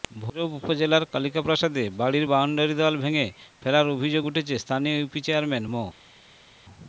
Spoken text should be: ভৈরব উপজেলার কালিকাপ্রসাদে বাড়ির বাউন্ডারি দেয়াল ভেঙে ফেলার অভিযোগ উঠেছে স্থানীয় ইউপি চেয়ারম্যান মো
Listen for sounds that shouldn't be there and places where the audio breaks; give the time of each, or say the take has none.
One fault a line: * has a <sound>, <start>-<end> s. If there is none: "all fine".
all fine